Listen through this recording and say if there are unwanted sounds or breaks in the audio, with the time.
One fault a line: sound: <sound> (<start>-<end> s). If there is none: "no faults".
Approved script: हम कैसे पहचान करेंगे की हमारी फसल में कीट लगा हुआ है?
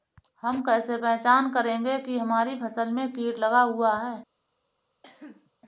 sound: cough (5.0-5.5 s)